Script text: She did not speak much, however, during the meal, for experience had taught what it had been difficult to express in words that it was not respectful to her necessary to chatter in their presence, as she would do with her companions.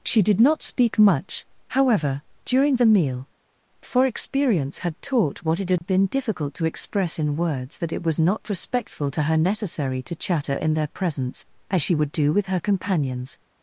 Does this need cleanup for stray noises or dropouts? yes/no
yes